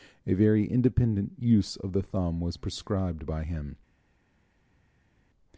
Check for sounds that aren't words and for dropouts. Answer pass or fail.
pass